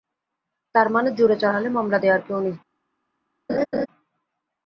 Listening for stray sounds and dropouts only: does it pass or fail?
fail